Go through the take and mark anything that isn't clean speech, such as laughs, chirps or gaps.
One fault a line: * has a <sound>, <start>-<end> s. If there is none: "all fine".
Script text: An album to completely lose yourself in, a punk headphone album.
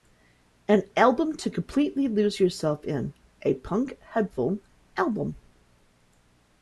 all fine